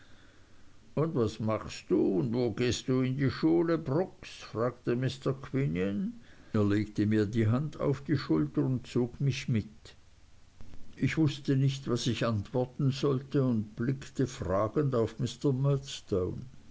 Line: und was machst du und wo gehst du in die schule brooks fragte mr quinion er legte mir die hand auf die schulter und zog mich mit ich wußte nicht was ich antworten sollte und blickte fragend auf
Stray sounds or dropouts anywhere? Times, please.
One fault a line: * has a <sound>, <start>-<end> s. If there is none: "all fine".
all fine